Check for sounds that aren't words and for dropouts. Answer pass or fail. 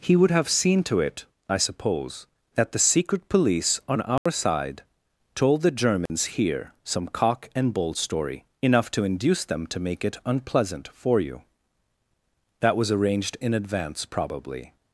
fail